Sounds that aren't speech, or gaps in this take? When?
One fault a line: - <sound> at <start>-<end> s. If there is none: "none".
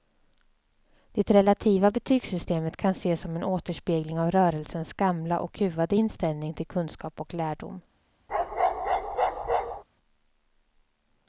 - bark at 8.3-9.8 s